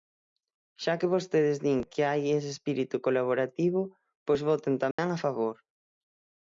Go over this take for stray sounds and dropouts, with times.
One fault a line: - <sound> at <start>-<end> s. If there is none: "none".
- dropout at 4.9-5.0 s